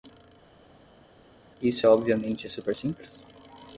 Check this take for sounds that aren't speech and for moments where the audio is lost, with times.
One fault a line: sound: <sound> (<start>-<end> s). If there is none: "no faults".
no faults